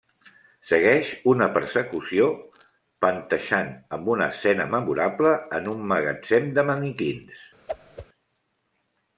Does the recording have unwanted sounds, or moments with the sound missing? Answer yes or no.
yes